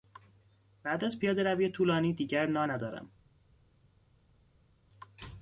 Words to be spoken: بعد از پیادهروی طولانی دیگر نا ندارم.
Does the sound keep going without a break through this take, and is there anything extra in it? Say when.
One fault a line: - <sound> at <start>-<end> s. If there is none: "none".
none